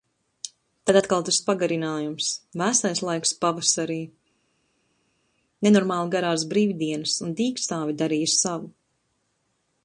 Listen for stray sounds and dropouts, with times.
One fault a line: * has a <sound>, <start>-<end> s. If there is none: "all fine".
all fine